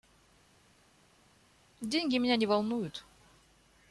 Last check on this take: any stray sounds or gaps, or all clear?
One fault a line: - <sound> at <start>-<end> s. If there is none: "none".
none